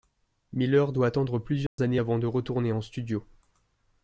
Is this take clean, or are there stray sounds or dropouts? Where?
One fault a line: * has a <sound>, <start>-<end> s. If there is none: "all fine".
* has a dropout, 1.7-1.8 s